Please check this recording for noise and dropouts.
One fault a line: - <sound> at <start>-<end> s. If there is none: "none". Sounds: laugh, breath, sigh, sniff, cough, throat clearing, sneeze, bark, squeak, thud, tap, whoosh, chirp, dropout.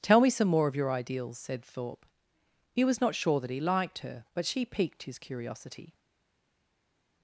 none